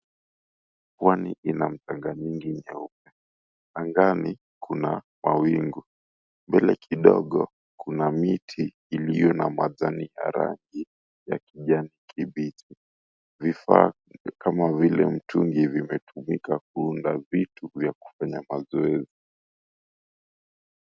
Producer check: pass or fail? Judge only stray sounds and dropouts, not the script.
pass